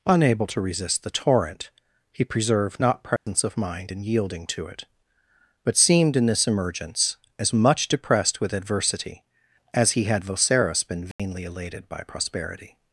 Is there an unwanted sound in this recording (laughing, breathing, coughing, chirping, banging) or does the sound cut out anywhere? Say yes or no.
yes